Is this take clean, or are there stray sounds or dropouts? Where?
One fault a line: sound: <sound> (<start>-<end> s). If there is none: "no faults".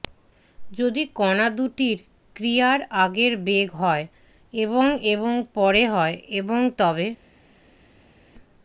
no faults